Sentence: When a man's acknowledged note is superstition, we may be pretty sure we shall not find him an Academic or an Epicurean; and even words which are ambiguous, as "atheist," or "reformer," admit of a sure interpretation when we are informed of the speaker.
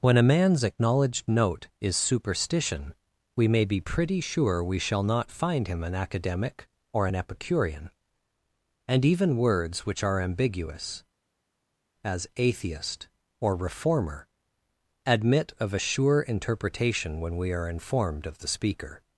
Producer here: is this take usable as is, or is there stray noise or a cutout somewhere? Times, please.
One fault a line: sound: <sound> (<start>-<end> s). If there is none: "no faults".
no faults